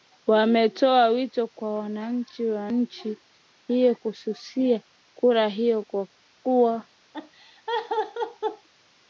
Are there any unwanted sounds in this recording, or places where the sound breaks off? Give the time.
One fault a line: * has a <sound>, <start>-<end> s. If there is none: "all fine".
* has a laugh, 7.1-8.7 s